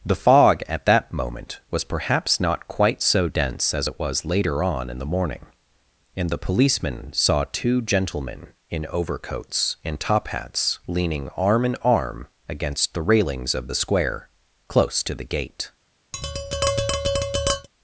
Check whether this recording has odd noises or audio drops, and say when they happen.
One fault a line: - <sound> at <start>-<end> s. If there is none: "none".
- tap at 16.1-17.7 s